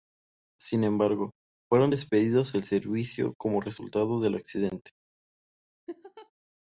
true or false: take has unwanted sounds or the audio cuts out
true